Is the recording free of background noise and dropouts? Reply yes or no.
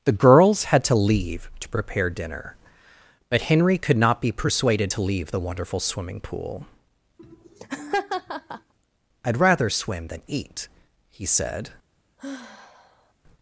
no